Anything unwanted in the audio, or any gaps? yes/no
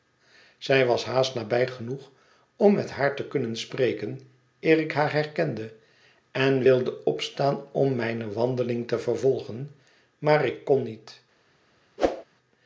yes